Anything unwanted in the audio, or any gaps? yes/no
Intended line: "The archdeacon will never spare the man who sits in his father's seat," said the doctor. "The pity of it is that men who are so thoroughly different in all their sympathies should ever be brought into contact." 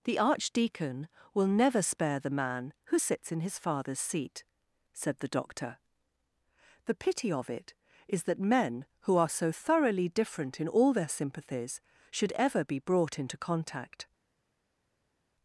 no